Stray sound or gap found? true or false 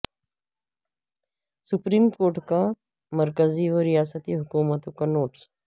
false